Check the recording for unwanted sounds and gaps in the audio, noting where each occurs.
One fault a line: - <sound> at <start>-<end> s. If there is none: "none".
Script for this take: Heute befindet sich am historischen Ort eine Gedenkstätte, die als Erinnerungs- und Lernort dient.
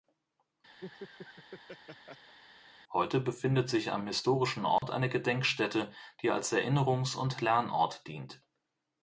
- laugh at 0.8-2.4 s
- dropout at 4.8-4.8 s